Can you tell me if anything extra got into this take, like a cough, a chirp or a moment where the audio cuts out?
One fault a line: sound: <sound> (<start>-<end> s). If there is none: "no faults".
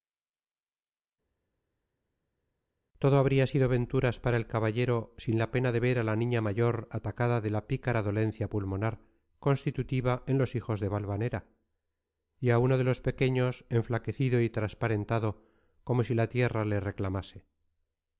no faults